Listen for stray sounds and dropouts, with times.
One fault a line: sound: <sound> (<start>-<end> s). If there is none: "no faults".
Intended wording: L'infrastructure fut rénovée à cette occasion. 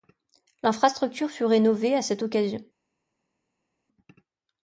no faults